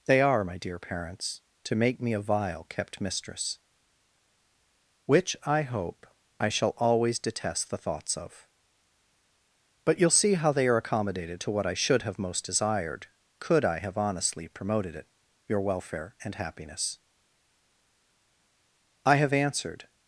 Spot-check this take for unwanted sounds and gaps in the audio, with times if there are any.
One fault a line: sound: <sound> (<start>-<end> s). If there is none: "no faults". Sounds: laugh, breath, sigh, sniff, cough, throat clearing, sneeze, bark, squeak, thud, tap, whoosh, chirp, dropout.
no faults